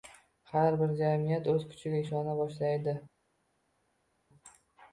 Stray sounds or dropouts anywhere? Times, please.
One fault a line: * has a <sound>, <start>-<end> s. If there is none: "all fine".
all fine